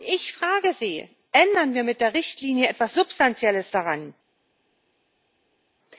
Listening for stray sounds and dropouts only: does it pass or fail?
pass